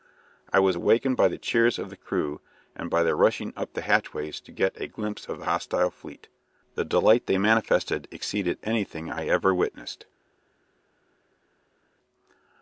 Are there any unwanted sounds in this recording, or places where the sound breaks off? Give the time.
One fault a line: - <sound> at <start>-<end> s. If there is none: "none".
none